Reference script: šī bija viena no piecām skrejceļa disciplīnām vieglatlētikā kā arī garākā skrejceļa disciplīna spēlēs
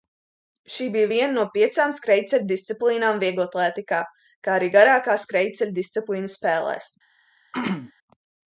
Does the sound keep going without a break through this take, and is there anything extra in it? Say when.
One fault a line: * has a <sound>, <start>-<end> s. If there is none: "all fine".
* has a throat clearing, 7.5-7.9 s